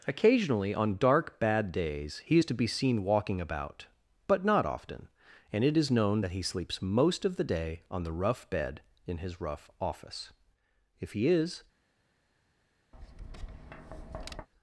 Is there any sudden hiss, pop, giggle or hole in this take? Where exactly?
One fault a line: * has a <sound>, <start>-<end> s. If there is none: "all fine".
* has a tap, 12.9-14.5 s